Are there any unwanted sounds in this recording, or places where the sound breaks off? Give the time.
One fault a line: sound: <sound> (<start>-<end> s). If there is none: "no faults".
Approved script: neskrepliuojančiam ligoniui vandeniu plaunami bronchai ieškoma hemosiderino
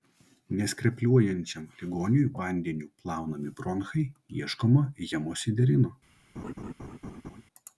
sound: laugh (6.3-7.4 s)